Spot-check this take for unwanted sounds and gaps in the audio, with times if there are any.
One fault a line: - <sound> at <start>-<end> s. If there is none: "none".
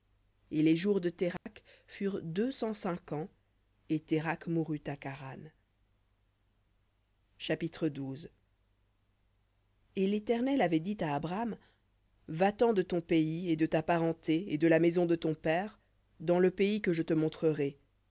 - dropout at 1.4-1.5 s